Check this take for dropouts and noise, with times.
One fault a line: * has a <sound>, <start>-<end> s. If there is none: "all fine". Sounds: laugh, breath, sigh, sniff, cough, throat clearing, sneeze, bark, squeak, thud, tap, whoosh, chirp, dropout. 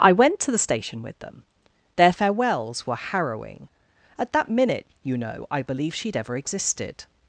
all fine